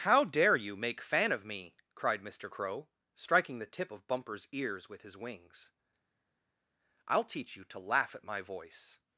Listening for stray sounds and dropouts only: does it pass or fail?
pass